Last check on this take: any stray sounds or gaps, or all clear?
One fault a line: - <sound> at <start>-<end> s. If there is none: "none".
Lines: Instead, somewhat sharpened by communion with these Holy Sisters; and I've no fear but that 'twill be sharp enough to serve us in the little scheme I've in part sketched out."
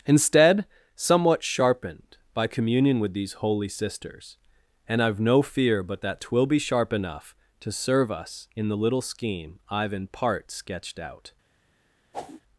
- whoosh at 12.1-12.4 s